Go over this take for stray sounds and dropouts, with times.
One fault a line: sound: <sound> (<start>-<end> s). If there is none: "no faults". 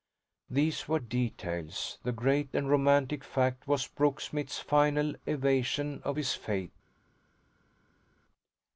no faults